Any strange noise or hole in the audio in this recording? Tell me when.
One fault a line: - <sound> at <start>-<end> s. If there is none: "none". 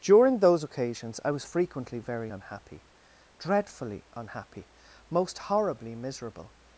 none